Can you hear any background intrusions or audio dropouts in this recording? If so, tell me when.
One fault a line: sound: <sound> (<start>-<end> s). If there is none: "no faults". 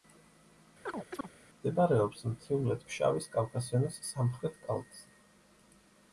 sound: chirp (0.9-1.3 s)